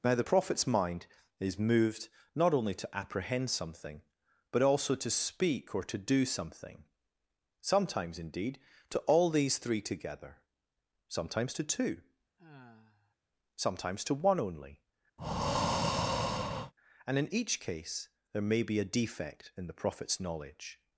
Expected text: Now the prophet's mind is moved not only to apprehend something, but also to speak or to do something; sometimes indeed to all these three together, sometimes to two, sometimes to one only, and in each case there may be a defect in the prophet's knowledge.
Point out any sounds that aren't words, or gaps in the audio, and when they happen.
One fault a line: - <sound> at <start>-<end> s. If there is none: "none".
- sigh at 12.4-13.2 s
- breath at 15.2-16.7 s